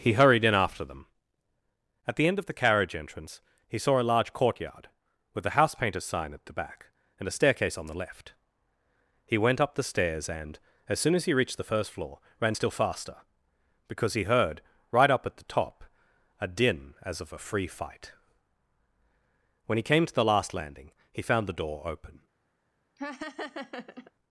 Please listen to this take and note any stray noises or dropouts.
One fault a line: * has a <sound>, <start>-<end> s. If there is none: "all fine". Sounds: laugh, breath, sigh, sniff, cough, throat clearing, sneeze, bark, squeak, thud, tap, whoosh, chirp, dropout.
* has a laugh, 23.0-24.1 s